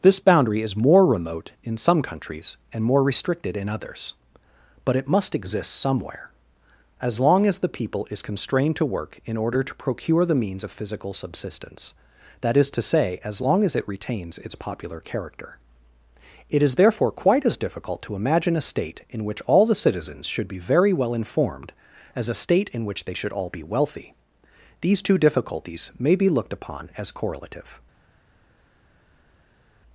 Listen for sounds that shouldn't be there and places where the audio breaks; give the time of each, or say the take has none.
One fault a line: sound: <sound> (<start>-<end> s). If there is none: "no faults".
no faults